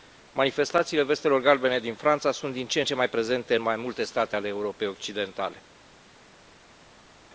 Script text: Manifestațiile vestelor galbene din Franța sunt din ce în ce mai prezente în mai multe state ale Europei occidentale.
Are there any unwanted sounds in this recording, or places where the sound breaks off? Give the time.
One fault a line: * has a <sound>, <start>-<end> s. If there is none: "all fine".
all fine